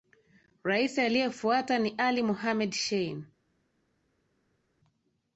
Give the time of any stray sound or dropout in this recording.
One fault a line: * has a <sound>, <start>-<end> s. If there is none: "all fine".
all fine